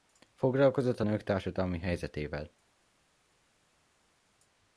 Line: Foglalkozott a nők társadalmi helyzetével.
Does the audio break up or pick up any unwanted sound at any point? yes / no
no